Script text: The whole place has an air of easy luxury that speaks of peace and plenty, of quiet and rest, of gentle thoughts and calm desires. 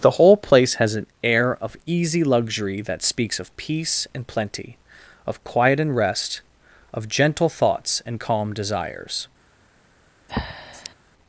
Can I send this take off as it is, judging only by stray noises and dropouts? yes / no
no